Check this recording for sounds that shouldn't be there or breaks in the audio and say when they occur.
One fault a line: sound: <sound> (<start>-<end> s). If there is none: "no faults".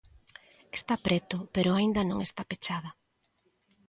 no faults